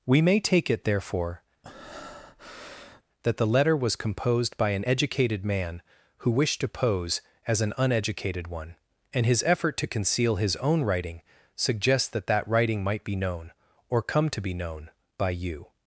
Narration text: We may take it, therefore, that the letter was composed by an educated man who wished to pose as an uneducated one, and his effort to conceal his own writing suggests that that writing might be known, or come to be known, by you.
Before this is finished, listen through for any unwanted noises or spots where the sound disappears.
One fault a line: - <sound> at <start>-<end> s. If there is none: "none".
- breath at 1.6-3.0 s